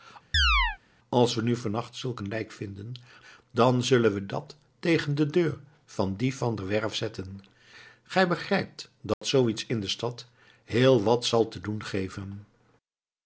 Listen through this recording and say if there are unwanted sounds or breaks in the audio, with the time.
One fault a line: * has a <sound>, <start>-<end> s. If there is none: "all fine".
* has a chirp, 0.3-0.8 s
* has a dropout, 9.1-9.2 s